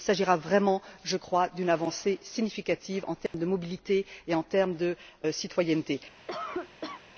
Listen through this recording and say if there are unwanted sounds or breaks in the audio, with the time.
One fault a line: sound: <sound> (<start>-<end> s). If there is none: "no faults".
sound: dropout (3.3-3.3 s)
sound: cough (6.3-7.0 s)